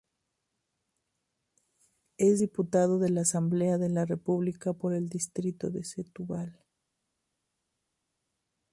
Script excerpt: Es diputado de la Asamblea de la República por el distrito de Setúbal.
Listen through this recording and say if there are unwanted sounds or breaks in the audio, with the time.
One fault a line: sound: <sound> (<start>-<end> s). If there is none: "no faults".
no faults